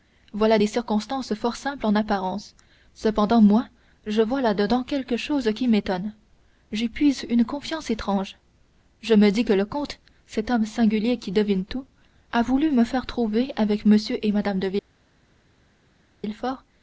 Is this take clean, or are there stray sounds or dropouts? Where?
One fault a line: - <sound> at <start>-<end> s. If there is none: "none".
none